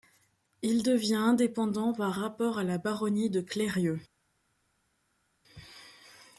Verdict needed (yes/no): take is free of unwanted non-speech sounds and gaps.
yes